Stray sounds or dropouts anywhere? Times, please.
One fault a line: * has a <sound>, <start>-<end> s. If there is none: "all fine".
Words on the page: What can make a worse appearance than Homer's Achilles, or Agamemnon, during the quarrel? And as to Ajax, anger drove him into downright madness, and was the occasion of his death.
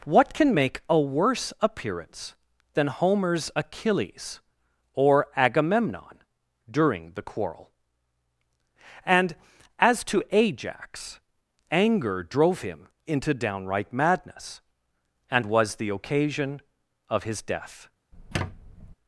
* has a squeak, 18.1-19.0 s